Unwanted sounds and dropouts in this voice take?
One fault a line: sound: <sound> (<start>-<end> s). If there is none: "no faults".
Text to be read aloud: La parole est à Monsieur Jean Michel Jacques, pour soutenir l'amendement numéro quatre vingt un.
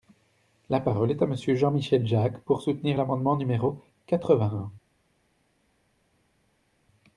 no faults